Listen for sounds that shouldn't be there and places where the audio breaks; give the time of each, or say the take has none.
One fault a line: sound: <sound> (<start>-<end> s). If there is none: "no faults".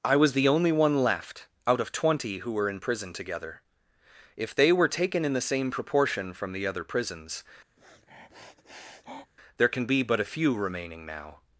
sound: sniff (7.8-9.3 s)